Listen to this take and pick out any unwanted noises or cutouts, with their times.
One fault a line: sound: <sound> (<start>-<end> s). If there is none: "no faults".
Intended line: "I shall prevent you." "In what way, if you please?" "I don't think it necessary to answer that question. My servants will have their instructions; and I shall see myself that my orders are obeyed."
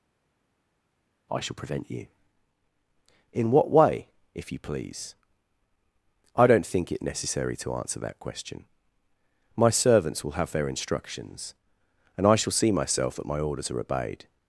no faults